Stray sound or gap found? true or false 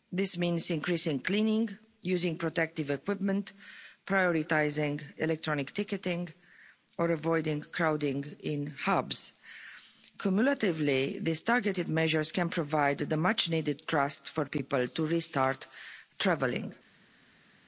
false